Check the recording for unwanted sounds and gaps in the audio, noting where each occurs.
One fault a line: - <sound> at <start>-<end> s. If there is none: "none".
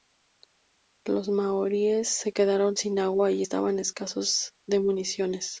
none